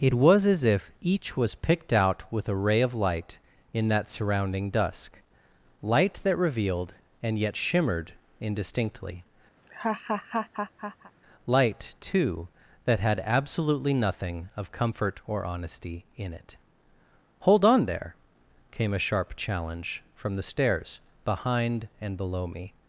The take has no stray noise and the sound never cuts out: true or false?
false